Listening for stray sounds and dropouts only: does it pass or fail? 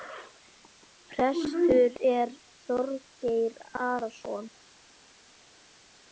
pass